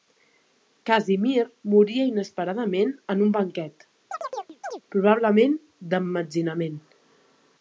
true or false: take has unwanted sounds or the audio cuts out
true